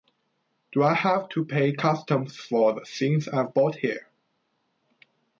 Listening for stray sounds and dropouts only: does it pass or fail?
pass